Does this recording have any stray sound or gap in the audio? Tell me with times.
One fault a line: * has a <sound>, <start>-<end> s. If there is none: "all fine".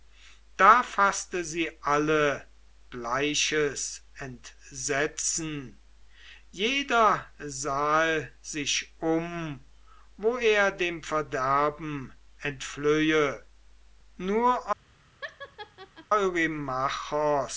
* has a laugh, 15.2-16.1 s